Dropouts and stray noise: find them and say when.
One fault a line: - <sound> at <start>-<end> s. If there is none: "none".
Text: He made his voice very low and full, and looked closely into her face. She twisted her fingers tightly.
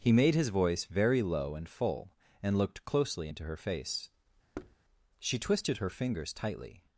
- thud at 4.5-4.8 s